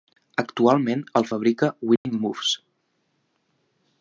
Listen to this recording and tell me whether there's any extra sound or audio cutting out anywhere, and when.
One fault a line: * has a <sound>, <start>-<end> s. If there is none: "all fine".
* has a dropout, 2.0-2.1 s